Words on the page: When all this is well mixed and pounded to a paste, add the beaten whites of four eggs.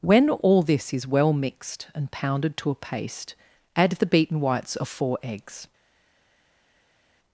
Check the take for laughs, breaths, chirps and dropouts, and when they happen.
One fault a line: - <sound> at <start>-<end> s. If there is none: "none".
none